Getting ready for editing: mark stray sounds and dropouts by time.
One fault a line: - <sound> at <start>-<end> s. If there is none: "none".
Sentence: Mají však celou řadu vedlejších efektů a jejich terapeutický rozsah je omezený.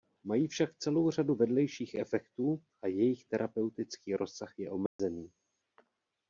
- dropout at 4.9-5.0 s